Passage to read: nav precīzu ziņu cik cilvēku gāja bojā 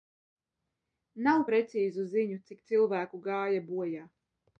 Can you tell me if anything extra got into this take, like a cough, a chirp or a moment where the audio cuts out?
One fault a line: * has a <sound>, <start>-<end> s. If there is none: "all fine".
all fine